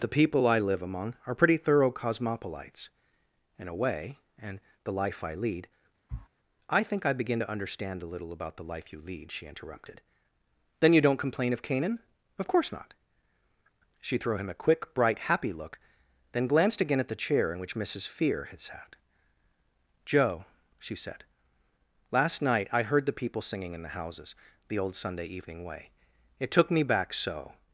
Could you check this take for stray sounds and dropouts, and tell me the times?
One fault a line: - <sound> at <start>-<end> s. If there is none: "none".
- sniff at 6.1-6.3 s